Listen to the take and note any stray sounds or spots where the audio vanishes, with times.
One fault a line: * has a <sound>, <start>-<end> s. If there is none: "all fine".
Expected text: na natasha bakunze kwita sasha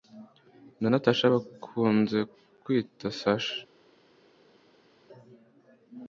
all fine